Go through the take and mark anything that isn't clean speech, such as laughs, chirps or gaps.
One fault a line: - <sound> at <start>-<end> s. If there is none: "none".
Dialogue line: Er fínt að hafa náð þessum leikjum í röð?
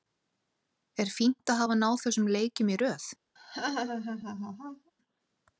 - laugh at 3.4-4.9 s